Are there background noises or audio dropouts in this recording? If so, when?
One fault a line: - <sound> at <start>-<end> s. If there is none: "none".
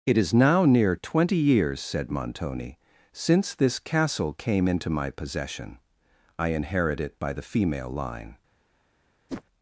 - whoosh at 9.3-9.4 s